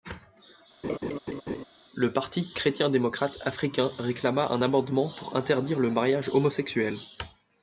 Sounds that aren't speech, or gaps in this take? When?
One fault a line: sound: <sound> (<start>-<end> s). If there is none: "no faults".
sound: laugh (0.8-1.6 s)